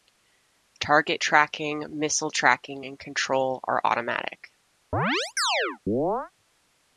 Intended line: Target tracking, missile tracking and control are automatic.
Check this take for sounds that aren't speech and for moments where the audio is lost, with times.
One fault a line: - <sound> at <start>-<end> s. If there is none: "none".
- chirp at 4.9-6.3 s